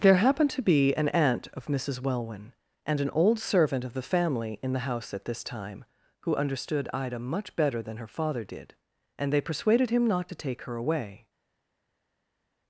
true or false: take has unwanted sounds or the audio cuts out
false